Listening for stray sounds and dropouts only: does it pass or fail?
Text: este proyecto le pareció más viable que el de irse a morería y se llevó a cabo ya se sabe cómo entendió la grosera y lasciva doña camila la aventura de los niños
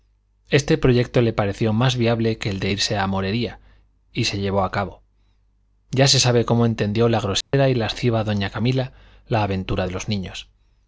fail